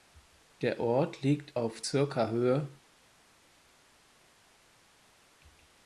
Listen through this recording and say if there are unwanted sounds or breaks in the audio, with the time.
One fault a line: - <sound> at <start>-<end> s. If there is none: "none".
none